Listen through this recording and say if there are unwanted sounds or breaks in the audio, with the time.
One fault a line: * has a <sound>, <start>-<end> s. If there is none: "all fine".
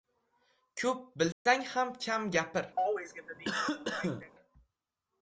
* has a dropout, 1.3-1.5 s
* has a cough, 2.8-4.3 s